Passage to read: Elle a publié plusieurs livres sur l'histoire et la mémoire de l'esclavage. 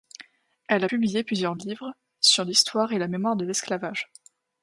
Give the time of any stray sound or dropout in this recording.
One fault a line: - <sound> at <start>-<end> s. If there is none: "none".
none